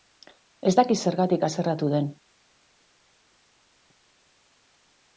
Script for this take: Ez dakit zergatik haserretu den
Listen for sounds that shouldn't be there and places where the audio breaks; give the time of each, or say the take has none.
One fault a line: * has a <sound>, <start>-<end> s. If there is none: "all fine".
all fine